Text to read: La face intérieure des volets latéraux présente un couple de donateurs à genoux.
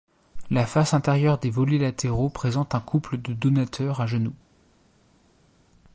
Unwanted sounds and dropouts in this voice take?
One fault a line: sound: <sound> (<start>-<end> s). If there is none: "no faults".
no faults